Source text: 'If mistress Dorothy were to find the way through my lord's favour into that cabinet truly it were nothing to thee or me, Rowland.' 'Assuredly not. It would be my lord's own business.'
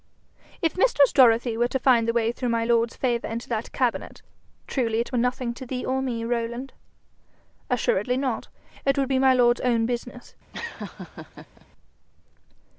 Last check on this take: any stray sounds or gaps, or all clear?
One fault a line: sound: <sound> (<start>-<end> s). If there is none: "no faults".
sound: laugh (10.5-11.7 s)